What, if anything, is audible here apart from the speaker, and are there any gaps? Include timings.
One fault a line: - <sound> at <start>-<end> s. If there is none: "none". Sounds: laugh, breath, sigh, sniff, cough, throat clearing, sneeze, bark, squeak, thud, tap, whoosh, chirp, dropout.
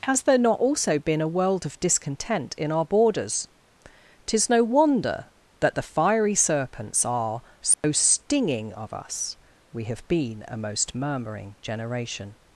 - dropout at 7.7-7.8 s